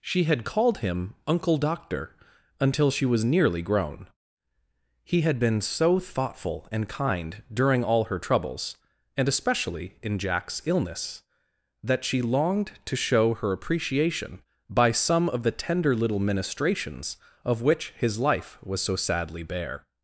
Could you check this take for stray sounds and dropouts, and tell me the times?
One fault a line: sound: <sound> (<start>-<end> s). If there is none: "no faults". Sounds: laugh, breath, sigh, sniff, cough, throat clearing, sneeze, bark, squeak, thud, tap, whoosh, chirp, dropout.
no faults